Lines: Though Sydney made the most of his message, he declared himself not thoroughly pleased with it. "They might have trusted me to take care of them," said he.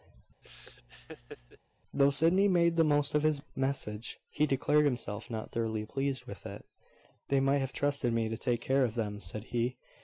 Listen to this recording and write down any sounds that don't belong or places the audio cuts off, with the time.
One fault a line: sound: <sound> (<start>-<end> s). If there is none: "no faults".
sound: laugh (0.4-1.6 s)